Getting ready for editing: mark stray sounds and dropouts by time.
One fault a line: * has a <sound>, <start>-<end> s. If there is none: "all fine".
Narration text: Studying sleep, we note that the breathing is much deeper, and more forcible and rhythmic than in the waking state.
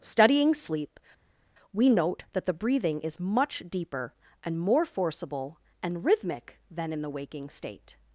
all fine